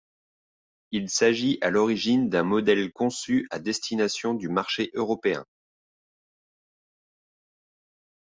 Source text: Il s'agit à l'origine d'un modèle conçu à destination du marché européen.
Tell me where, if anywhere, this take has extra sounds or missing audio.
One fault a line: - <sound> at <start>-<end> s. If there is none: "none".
none